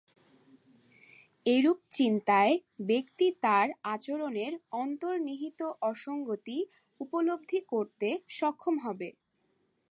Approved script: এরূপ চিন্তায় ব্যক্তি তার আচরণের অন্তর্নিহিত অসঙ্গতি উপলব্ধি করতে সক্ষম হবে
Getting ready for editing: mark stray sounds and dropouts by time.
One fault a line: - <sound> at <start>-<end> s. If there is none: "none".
none